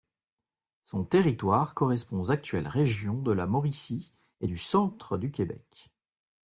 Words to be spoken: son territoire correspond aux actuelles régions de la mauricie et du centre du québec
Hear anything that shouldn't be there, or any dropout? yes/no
no